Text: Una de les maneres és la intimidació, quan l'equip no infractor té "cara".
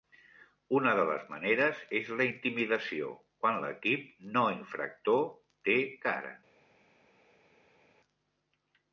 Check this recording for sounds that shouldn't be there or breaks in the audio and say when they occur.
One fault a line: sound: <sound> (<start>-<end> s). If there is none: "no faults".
no faults